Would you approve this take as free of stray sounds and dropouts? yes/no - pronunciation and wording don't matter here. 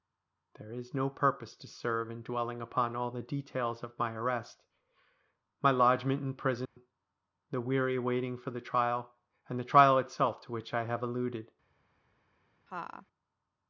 no